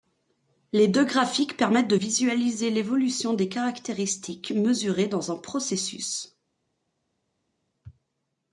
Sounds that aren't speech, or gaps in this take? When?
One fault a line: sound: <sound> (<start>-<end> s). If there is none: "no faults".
no faults